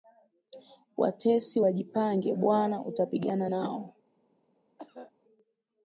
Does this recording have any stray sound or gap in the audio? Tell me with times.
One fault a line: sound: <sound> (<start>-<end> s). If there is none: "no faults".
sound: cough (4.8-5.1 s)